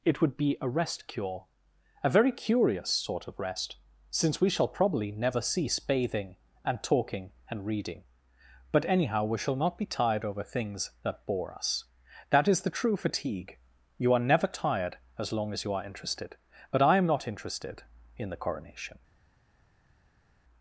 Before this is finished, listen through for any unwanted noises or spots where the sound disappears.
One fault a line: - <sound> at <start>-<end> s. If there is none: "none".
none